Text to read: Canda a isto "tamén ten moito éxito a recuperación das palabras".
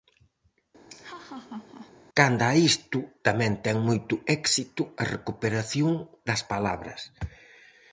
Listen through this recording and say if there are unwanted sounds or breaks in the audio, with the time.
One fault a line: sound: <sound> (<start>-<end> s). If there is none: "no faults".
sound: laugh (0.9-1.9 s)